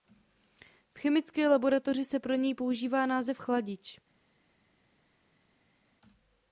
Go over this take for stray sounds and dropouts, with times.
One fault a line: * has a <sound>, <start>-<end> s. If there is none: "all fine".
all fine